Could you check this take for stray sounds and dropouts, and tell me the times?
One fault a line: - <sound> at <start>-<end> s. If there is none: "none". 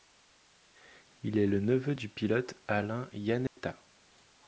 - dropout at 3.5-3.6 s